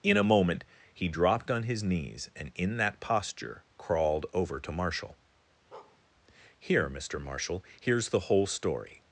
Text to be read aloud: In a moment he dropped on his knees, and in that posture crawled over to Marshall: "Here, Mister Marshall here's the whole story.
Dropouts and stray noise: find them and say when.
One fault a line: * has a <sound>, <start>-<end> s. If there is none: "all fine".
* has a bark, 5.7-6.0 s